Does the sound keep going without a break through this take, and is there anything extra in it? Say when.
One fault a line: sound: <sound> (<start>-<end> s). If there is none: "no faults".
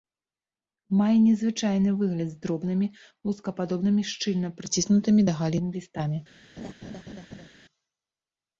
sound: laugh (6.6-7.5 s)